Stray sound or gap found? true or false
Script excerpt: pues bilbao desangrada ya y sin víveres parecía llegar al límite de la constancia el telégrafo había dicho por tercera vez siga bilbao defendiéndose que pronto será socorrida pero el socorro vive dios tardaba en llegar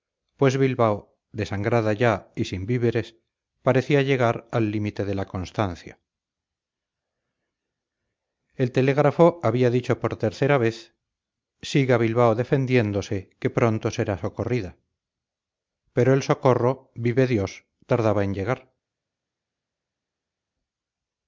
false